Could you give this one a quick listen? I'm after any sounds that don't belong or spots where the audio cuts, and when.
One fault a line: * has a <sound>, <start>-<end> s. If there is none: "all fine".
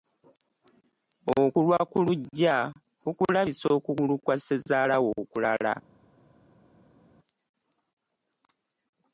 all fine